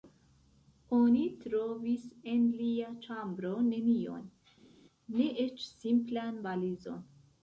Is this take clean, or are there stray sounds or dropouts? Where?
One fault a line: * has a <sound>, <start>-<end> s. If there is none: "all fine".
all fine